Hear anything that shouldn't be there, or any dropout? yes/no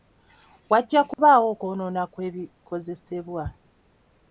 yes